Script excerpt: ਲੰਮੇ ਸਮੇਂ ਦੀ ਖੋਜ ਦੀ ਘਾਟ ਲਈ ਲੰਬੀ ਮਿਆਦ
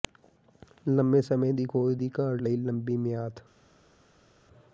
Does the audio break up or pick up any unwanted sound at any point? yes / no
no